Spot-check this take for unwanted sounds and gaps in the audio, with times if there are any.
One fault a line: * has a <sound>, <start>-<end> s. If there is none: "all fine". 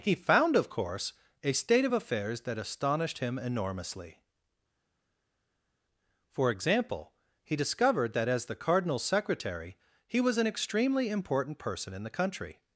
all fine